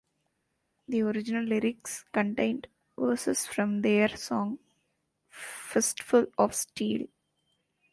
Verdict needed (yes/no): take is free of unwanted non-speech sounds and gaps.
yes